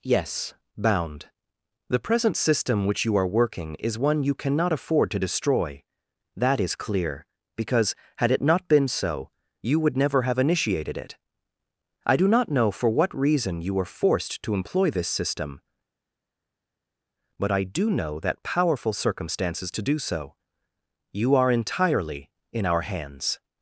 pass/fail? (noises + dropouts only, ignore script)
pass